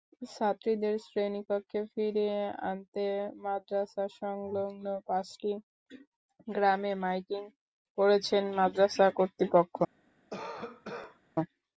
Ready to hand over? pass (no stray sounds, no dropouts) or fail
fail